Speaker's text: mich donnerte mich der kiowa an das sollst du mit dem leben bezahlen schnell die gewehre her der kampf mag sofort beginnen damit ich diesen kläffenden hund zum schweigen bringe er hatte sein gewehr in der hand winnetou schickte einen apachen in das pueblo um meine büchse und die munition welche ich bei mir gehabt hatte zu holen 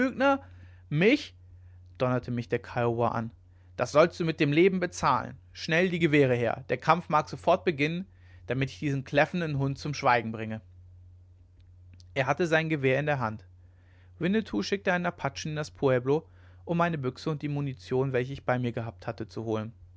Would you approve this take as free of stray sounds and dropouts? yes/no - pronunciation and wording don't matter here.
yes